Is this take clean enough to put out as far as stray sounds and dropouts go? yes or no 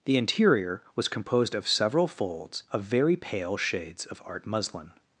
yes